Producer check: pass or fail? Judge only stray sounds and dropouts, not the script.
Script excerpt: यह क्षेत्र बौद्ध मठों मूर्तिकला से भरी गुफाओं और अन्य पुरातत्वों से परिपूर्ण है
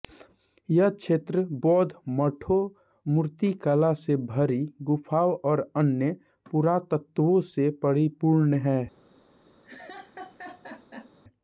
fail